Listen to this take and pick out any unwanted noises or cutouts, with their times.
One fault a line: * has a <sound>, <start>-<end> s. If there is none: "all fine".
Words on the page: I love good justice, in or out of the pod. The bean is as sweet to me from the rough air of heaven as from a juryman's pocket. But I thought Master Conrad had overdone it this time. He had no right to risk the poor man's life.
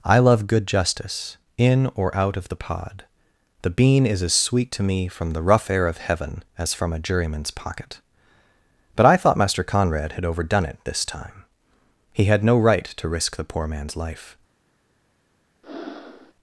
* has a breath, 15.6-16.3 s